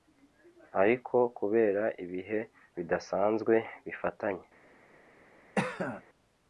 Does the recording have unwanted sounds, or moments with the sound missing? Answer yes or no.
yes